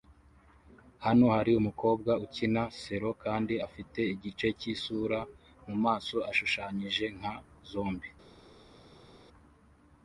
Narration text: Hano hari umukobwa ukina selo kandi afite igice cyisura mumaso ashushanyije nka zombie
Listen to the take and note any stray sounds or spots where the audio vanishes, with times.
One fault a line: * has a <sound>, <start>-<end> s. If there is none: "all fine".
all fine